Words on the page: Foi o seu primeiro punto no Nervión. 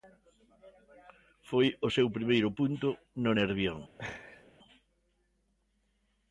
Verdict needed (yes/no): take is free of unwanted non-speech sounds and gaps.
no